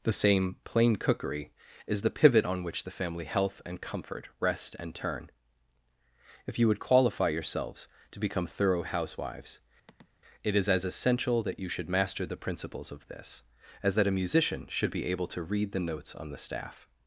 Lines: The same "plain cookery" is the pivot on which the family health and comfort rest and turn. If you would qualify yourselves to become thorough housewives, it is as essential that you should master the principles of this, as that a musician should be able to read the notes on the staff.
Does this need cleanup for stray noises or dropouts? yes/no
yes